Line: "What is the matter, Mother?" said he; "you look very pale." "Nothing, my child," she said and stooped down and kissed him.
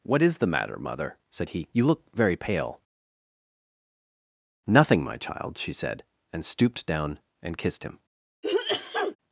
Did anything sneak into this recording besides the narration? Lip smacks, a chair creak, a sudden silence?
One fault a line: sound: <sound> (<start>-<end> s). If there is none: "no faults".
sound: sneeze (8.4-9.2 s)